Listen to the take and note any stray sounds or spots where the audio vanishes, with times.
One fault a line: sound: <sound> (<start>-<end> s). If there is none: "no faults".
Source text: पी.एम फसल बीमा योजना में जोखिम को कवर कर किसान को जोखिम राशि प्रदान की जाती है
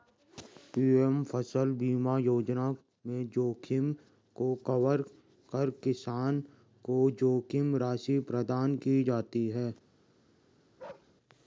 sound: bark (10.8-11.1 s)